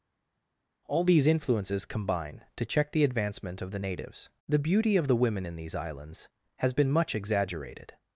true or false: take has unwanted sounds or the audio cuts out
false